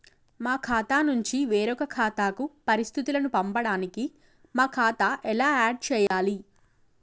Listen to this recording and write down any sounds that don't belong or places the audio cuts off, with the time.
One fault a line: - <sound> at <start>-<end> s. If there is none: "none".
- dropout at 6.1-6.1 s